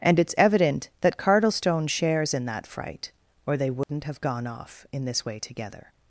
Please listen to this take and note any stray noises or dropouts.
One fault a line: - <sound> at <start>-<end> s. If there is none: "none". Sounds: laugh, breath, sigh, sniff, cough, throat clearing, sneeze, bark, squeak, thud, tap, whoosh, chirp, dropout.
- dropout at 3.8-3.9 s